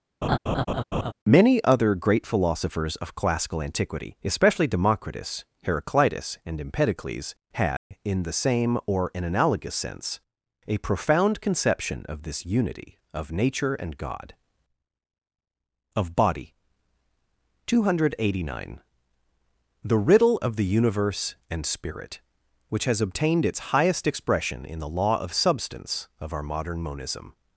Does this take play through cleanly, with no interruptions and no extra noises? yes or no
no